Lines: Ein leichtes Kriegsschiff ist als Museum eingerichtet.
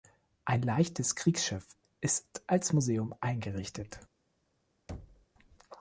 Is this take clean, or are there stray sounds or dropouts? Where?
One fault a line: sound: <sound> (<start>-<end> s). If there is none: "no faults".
sound: thud (4.9-5.3 s)